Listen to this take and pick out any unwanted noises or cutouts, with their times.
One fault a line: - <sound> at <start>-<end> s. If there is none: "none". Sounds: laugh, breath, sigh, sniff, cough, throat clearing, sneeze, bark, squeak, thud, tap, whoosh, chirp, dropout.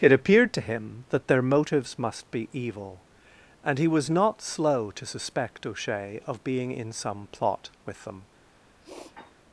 - sniff at 8.8-9.3 s